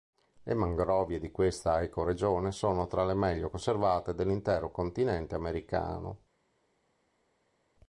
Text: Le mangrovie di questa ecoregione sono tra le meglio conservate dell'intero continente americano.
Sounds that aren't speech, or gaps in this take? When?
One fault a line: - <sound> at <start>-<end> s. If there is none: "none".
none